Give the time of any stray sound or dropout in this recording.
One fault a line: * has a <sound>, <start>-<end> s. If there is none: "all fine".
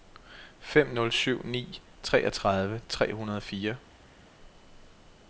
all fine